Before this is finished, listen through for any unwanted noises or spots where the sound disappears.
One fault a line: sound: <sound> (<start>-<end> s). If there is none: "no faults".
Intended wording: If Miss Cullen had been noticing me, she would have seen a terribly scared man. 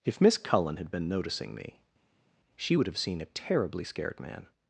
no faults